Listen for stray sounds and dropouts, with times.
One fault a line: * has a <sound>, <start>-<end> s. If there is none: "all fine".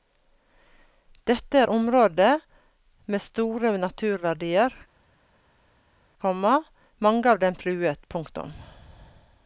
all fine